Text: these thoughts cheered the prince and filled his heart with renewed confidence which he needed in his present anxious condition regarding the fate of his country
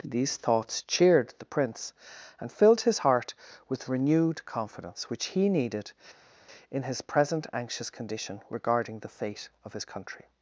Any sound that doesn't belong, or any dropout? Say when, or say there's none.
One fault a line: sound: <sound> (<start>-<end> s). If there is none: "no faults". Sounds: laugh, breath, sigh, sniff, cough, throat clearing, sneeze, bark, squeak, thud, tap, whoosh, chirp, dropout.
no faults